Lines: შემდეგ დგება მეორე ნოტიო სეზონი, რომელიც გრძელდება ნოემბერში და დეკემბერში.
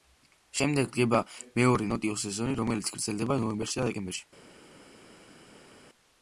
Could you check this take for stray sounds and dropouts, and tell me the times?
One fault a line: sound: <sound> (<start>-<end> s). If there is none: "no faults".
no faults